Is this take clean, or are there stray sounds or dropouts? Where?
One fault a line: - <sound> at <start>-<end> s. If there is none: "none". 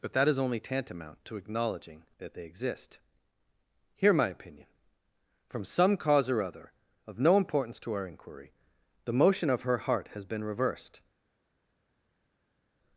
none